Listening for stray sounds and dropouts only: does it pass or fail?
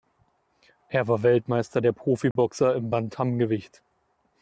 fail